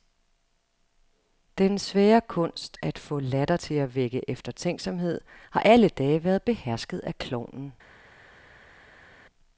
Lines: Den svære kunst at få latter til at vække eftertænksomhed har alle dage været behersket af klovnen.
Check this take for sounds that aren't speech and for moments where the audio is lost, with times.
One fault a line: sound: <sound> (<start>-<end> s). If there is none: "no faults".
no faults